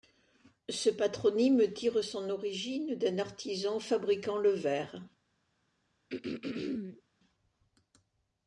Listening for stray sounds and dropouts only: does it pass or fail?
fail